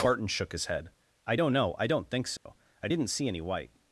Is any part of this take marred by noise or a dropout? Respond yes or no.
yes